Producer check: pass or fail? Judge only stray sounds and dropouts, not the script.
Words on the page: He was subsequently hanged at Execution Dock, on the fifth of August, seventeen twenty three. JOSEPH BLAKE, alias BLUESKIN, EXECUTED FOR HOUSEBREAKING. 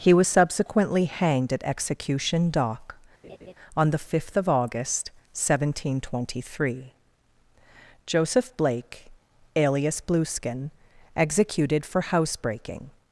fail